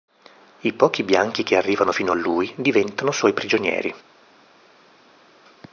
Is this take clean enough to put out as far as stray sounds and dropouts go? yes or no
yes